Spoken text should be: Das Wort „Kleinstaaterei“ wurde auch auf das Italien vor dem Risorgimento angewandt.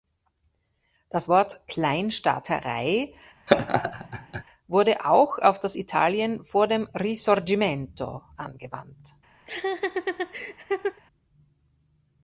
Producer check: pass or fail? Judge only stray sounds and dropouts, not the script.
fail